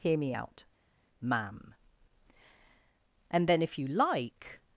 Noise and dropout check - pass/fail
pass